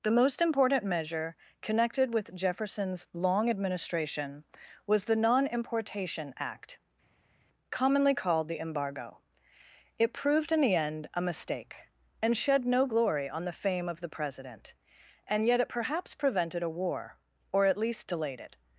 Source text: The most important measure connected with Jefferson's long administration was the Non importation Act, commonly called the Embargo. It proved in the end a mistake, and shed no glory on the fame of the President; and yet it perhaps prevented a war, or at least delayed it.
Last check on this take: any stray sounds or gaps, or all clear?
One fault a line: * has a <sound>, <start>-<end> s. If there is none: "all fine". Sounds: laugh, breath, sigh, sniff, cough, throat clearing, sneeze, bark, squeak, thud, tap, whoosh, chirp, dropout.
all fine